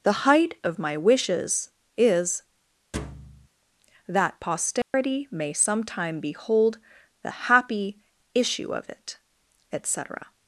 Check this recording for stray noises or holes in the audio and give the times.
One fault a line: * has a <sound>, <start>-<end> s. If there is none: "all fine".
* has a thud, 2.9-3.5 s
* has a dropout, 4.8-4.9 s